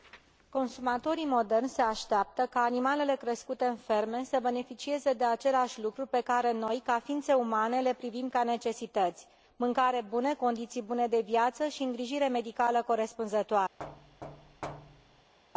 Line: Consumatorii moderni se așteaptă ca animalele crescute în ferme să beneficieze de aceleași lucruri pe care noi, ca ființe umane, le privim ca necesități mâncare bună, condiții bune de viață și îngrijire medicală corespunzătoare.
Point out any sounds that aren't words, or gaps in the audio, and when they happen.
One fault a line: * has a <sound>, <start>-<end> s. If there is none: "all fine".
* has a thud, 13.8-15.3 s